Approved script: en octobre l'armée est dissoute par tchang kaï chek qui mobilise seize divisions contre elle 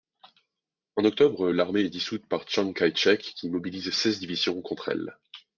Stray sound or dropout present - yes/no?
no